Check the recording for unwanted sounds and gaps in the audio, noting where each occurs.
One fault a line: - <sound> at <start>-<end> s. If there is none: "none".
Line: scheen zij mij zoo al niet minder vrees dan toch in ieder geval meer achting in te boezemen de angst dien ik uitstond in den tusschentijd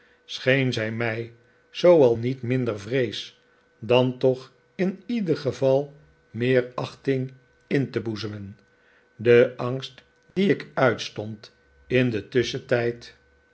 - dropout at 10.3-10.4 s